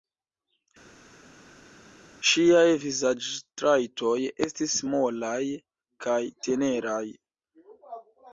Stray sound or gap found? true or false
false